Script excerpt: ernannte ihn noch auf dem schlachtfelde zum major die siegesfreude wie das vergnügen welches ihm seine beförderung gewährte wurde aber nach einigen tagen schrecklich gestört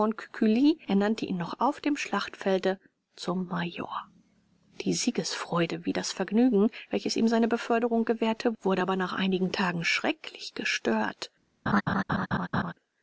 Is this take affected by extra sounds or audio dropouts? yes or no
yes